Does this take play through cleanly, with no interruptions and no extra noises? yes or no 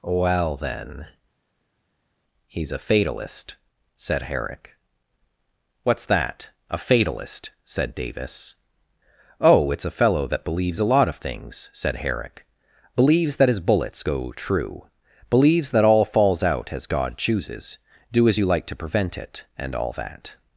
yes